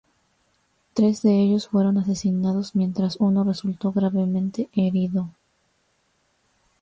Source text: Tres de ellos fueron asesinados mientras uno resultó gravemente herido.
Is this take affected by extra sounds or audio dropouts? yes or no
no